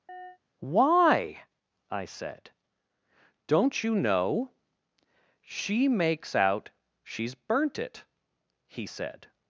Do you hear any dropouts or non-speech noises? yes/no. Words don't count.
yes